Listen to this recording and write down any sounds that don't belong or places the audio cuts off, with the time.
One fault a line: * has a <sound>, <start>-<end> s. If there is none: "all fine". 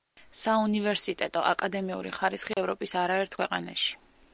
* has a dropout, 2.5-2.6 s